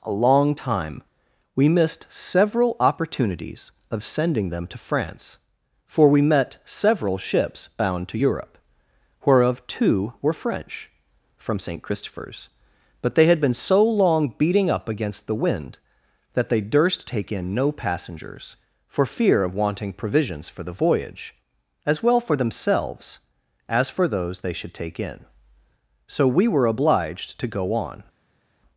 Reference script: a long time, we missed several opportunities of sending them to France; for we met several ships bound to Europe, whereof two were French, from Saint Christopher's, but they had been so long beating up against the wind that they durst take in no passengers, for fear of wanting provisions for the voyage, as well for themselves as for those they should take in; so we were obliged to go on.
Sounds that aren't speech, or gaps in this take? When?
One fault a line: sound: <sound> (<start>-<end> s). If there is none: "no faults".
no faults